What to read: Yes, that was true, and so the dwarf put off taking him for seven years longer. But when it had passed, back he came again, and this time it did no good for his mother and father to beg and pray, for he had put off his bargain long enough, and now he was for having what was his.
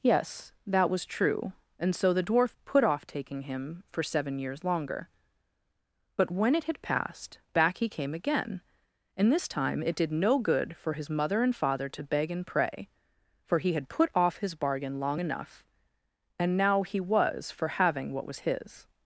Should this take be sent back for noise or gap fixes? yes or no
no